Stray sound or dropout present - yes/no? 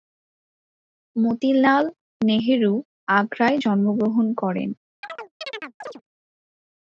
yes